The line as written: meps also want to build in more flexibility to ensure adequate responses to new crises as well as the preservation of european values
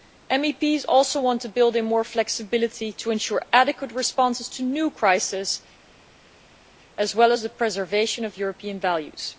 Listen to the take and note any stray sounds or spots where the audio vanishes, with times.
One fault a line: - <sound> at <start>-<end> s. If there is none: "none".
none